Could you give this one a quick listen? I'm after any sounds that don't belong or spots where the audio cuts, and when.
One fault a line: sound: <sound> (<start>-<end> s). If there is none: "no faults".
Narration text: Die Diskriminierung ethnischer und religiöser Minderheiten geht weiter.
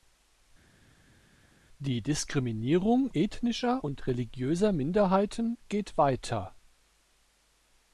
no faults